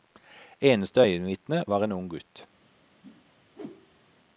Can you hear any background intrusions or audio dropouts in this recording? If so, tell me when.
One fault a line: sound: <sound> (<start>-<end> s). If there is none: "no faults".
sound: whoosh (3.0-4.1 s)